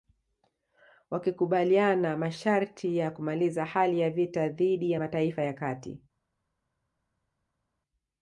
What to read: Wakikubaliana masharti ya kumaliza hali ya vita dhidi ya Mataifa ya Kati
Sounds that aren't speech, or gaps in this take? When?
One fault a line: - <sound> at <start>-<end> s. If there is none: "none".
none